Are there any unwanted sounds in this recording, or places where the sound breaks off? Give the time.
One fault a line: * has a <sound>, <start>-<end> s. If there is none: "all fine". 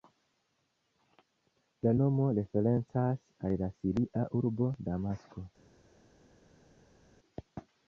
all fine